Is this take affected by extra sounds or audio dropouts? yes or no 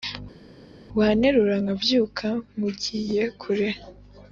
no